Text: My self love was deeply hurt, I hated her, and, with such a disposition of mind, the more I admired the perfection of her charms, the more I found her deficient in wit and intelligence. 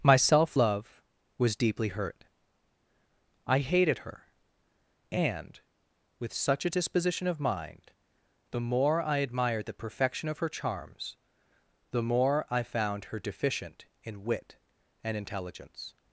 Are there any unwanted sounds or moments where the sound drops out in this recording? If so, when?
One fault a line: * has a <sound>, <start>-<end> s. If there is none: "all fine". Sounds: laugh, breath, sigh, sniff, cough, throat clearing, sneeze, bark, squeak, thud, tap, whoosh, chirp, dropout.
all fine